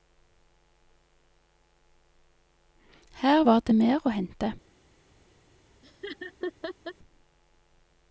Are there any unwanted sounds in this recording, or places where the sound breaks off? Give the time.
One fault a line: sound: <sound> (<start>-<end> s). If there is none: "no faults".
sound: laugh (5.8-6.9 s)